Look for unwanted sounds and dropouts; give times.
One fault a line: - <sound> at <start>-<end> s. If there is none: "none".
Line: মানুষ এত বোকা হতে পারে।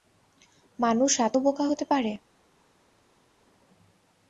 none